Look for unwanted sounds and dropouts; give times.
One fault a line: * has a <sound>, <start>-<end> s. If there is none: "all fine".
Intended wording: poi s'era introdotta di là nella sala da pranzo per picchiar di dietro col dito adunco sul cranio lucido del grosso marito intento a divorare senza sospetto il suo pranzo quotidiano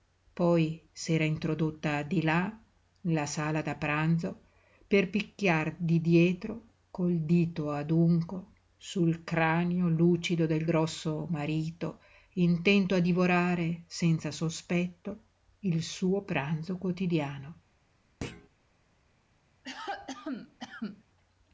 * has a thud, 18.2-18.5 s
* has a cough, 19.6-21.0 s